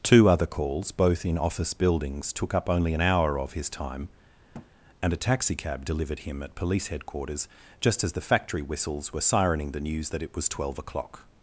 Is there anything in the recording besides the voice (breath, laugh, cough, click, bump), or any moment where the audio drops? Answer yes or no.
yes